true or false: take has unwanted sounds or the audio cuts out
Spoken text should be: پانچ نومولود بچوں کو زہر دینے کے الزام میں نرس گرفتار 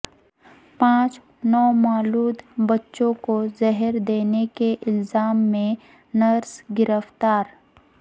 false